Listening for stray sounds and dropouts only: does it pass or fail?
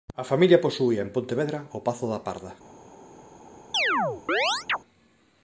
fail